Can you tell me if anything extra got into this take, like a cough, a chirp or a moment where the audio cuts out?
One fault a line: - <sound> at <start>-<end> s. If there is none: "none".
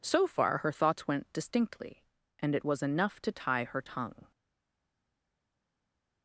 none